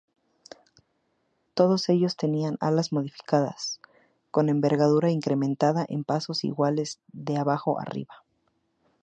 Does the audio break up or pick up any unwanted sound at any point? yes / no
no